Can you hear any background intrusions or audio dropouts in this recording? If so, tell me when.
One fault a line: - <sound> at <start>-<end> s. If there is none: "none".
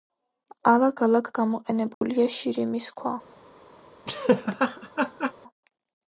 - dropout at 1.9-2.0 s
- laugh at 4.1-5.3 s